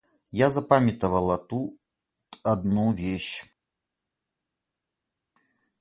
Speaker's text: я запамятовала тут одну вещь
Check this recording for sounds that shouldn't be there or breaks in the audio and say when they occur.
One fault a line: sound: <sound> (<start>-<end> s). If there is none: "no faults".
no faults